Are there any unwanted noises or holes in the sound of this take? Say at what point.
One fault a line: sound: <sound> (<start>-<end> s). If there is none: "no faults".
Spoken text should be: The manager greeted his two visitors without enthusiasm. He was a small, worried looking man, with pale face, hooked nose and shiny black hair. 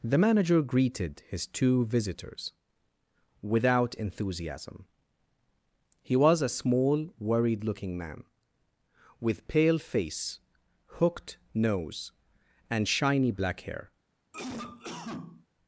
sound: cough (14.3-15.5 s)